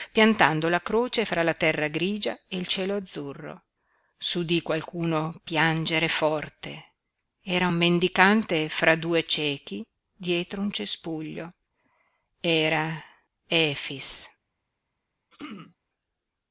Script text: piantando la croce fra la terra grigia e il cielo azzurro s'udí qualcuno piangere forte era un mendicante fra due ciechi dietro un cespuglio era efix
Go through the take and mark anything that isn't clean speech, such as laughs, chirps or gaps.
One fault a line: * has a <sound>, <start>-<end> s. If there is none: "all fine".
* has a throat clearing, 15.3-15.8 s